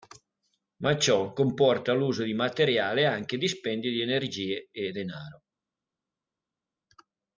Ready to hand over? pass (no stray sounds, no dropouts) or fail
pass